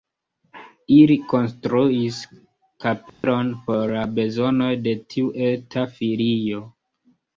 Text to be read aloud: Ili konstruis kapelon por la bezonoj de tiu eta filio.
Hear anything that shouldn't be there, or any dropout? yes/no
yes